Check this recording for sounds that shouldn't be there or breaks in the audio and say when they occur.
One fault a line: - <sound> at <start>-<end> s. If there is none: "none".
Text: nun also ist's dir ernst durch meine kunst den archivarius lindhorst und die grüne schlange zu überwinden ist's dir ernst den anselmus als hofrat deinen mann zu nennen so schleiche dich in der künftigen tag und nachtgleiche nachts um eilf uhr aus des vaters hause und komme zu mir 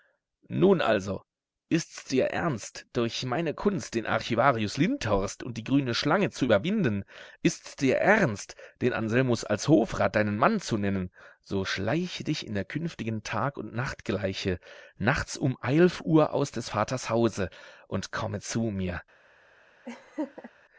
- laugh at 19.9-20.5 s